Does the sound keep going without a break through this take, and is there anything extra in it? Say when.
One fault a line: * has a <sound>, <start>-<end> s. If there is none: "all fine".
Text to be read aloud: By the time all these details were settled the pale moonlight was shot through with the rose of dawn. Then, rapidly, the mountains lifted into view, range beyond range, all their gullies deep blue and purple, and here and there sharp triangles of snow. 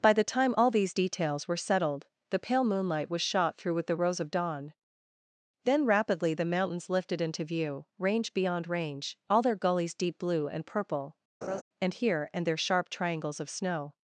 * has a laugh, 11.4-11.6 s